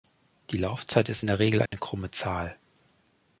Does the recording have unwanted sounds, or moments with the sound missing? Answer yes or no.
yes